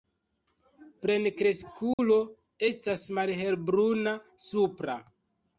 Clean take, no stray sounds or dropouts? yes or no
no